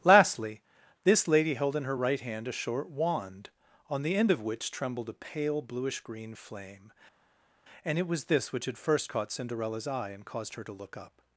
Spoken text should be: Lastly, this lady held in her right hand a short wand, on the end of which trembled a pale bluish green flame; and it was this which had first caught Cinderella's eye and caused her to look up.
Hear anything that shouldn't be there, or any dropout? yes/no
no